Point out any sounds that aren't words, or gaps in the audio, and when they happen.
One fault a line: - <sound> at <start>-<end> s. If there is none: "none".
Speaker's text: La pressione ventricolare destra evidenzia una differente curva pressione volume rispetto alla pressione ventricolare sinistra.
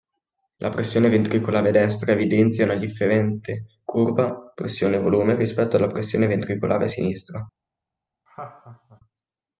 - laugh at 8.3-9.0 s